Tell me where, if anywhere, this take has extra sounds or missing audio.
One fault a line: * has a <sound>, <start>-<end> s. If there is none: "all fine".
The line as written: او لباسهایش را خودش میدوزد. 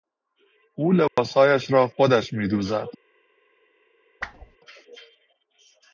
* has a dropout, 1.1-1.2 s
* has a whoosh, 4.2-4.6 s